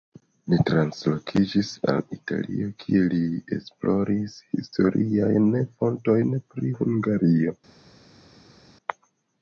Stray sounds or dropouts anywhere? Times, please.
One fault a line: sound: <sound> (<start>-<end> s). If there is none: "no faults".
no faults